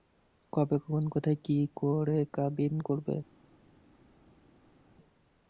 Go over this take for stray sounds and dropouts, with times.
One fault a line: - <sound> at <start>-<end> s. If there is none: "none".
none